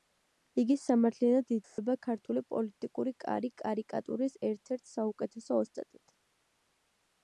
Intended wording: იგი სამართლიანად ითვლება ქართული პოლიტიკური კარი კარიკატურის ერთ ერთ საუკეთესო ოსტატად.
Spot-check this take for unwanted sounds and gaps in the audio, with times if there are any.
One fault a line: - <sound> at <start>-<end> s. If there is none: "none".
- dropout at 1.6-1.8 s